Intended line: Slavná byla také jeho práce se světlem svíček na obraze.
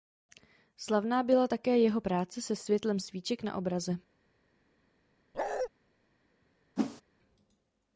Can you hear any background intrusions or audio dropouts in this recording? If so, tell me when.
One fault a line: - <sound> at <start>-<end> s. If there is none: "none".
- bark at 5.3-5.7 s
- whoosh at 6.8-7.0 s